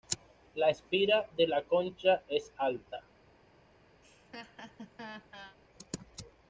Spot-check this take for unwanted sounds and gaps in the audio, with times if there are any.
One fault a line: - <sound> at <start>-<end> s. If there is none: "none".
- laugh at 4.0-5.6 s